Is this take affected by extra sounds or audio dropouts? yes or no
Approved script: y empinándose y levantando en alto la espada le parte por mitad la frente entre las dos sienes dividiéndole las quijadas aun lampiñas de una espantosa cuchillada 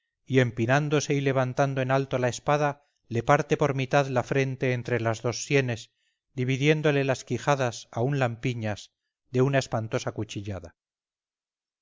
no